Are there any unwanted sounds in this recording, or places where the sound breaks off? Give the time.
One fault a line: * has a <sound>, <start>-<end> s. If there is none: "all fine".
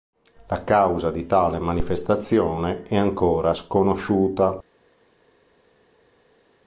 all fine